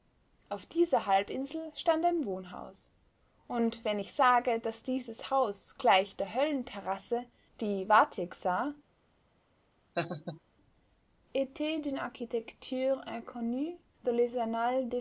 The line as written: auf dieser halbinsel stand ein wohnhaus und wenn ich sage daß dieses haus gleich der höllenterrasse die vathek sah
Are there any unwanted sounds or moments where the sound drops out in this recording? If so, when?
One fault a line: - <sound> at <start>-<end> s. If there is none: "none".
- laugh at 9.9-10.4 s